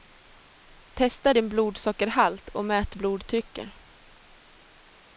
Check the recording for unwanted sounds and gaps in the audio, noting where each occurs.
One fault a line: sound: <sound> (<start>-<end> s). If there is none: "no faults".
no faults